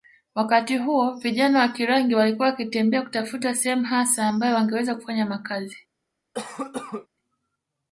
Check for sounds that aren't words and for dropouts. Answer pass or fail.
fail